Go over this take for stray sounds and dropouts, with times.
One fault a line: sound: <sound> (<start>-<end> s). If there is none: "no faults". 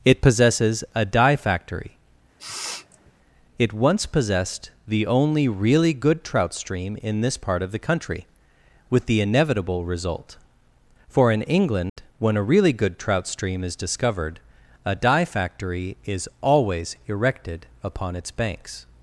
sound: sniff (2.4-3.1 s)
sound: dropout (11.9-12.0 s)